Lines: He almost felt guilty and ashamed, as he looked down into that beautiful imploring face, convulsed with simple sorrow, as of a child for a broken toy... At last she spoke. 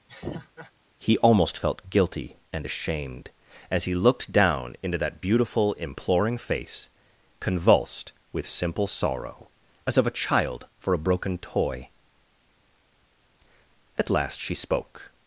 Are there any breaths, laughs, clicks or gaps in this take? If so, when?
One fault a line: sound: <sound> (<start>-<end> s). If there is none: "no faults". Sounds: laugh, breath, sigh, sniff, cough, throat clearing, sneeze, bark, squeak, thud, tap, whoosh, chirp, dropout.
sound: laugh (0.1-0.7 s)